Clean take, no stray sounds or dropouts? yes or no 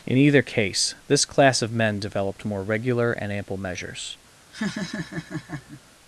no